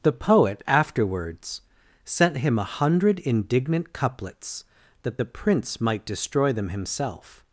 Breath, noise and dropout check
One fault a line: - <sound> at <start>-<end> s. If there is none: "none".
none